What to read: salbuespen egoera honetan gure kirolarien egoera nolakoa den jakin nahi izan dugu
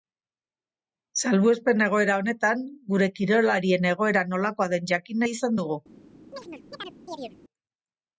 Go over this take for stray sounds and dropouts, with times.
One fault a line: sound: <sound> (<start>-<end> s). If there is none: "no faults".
sound: chirp (6.3-7.4 s)